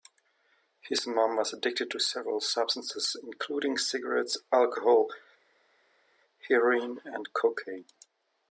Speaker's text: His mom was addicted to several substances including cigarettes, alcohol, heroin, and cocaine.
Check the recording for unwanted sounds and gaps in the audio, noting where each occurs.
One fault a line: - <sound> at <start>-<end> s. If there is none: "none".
none